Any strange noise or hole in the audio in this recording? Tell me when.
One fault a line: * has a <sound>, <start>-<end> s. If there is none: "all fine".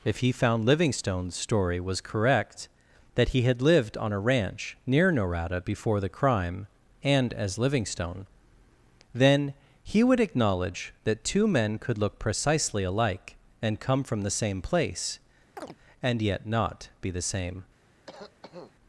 * has a chirp, 15.6-15.8 s
* has a cough, 18.1-18.7 s